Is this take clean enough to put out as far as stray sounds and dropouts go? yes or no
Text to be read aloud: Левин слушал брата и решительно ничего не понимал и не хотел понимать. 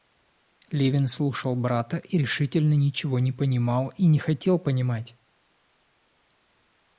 yes